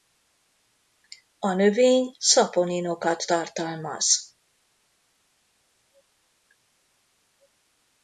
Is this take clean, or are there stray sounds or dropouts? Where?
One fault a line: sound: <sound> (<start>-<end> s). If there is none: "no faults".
no faults